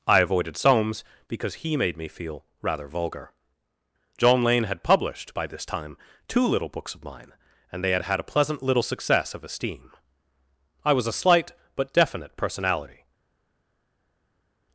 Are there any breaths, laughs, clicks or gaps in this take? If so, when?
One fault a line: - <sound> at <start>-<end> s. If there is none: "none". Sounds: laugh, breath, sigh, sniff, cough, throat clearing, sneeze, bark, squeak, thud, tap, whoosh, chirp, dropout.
none